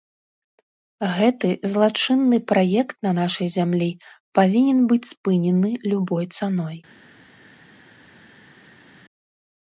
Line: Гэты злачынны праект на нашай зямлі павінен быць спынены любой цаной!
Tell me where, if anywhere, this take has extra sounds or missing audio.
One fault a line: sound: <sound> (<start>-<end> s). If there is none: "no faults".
no faults